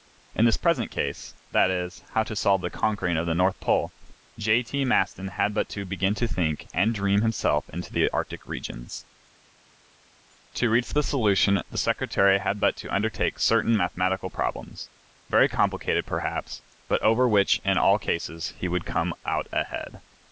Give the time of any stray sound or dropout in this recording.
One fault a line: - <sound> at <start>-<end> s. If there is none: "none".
none